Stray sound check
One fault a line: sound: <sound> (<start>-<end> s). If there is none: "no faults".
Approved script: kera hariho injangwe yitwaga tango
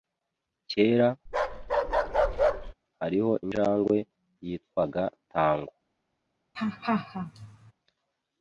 sound: bark (1.3-2.7 s)
sound: laugh (6.5-7.7 s)